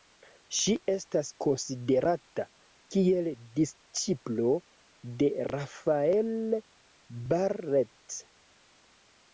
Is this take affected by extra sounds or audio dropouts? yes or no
no